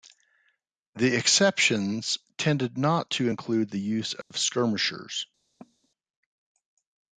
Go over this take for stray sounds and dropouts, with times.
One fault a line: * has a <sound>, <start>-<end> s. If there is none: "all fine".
* has a dropout, 4.2-4.3 s
* has a cough, 5.6-5.9 s